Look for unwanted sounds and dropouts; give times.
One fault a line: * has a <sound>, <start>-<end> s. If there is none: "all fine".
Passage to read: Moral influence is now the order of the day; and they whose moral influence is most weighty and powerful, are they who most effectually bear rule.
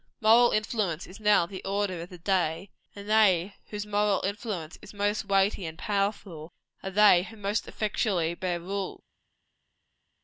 all fine